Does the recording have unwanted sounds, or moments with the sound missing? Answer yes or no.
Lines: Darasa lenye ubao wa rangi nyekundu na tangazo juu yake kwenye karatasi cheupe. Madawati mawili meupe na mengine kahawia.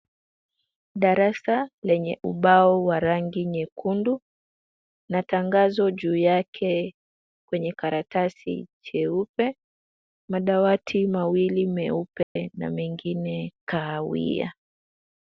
yes